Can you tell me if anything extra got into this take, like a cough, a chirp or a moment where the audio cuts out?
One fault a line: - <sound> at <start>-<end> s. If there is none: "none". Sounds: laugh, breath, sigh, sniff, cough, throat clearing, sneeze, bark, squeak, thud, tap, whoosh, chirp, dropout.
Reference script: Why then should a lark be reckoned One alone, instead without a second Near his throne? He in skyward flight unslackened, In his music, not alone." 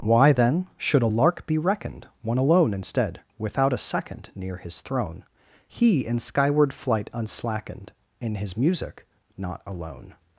none